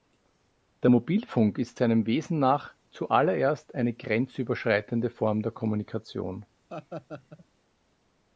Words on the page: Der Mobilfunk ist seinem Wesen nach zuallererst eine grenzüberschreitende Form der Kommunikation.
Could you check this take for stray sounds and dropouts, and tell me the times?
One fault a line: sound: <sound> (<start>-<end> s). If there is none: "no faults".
sound: laugh (6.7-7.5 s)